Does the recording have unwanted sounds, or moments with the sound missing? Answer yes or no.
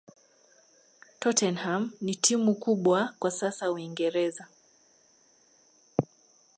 no